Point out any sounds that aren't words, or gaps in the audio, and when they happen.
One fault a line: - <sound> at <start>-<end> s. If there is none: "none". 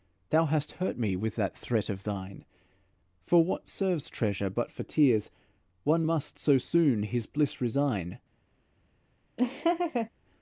- laugh at 9.4-10.1 s